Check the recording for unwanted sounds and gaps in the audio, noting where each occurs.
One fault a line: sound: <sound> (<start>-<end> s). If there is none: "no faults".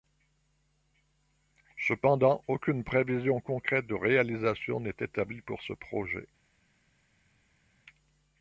no faults